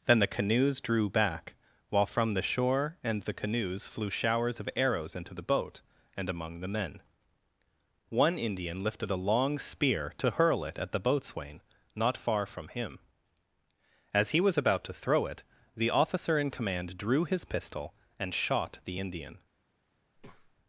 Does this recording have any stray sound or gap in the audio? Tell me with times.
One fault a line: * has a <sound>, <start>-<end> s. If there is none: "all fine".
* has a breath, 20.1-20.6 s